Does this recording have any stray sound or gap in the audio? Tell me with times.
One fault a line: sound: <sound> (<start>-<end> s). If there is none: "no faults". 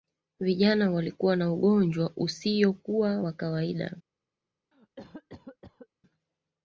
sound: cough (4.7-5.9 s)